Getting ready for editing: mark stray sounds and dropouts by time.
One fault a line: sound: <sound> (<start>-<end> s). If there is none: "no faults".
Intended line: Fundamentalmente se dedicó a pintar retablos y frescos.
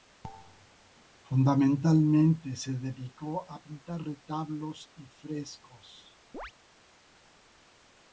sound: chirp (6.3-6.5 s)